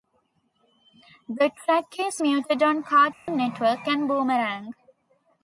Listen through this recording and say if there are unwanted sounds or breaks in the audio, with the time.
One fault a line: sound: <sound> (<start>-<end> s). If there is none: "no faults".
sound: dropout (3.1-3.3 s)